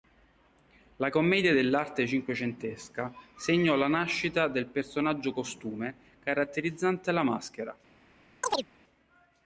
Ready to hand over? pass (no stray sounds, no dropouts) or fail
fail